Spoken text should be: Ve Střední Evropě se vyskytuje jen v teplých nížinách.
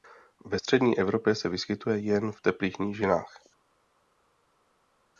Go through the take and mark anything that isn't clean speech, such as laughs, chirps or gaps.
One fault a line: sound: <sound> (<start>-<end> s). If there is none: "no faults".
no faults